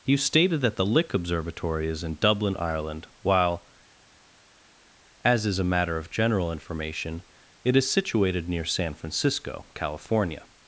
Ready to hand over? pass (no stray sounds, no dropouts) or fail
pass